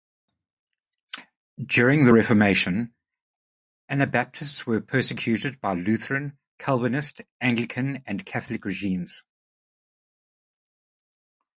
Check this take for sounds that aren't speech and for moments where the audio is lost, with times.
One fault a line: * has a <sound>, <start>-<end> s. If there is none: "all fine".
all fine